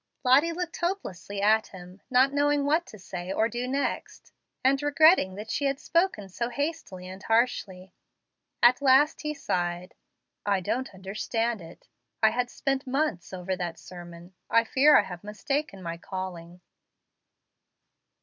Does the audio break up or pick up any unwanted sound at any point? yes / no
no